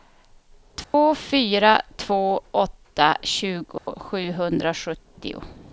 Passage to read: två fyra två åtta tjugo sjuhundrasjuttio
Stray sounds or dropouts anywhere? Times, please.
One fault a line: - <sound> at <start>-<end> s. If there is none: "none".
- dropout at 0.8-0.9 s
- dropout at 3.8-3.9 s